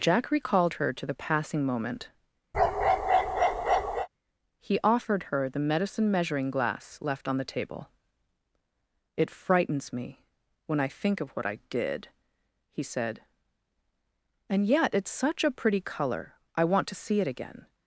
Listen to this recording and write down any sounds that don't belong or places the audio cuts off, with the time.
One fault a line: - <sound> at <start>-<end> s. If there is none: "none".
- bark at 2.5-4.1 s